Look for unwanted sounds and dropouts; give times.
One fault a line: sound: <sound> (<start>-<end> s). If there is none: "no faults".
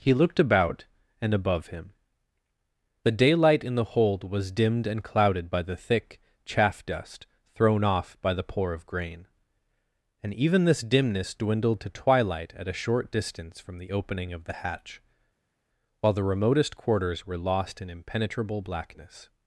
no faults